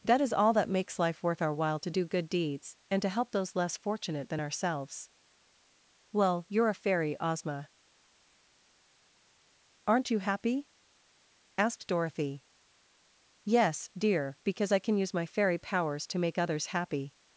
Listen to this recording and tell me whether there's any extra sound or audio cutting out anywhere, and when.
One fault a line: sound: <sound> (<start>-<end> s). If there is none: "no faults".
no faults